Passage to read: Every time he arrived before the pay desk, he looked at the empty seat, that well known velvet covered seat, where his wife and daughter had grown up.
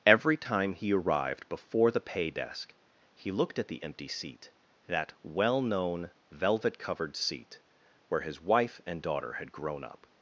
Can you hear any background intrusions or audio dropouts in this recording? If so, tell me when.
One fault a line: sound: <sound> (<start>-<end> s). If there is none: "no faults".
no faults